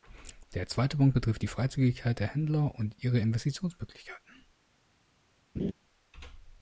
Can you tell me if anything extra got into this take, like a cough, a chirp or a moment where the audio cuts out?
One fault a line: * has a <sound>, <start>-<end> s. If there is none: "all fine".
* has a laugh, 5.6-5.7 s